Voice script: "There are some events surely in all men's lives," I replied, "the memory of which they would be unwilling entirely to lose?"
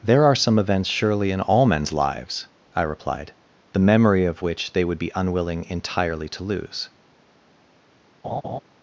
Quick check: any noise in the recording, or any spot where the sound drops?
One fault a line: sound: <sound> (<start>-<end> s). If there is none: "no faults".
sound: laugh (8.2-8.6 s)